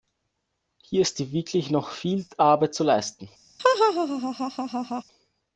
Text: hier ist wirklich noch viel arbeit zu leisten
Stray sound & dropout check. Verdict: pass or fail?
fail